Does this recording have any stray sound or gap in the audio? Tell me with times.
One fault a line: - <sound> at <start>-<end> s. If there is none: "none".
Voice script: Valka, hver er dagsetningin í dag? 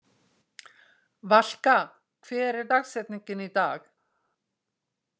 none